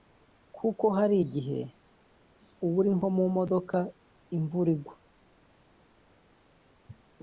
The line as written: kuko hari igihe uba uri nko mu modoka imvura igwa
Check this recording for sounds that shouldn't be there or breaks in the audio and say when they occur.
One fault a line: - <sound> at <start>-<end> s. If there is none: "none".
none